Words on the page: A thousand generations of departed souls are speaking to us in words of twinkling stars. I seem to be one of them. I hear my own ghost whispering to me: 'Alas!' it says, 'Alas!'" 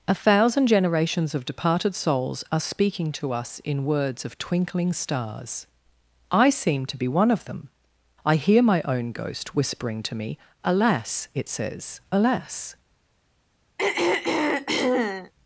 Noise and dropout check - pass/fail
fail